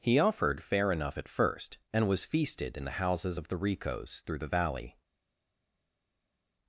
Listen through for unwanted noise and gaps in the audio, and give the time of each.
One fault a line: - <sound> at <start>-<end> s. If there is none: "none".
none